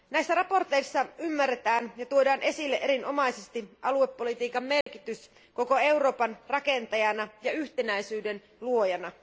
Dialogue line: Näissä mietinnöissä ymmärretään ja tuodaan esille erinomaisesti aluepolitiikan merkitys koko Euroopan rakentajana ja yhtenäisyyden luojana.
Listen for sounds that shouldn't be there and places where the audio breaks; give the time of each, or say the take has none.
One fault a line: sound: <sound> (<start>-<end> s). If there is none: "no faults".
sound: dropout (4.8-4.9 s)